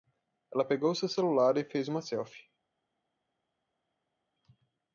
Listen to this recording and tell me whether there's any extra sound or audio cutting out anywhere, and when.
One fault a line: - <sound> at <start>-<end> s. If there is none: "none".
none